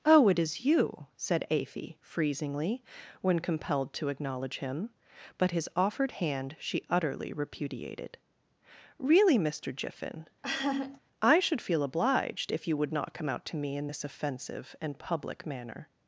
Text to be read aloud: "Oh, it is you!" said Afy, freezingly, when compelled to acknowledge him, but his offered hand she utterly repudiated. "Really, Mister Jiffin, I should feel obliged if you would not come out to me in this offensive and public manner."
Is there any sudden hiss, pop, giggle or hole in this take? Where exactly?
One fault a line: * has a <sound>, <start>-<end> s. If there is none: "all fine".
* has a laugh, 10.4-11.0 s